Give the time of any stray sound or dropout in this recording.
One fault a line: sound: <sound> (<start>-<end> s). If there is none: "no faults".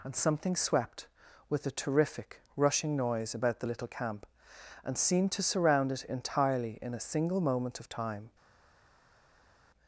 no faults